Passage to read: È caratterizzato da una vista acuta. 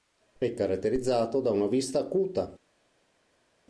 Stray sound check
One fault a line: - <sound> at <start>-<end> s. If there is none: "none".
none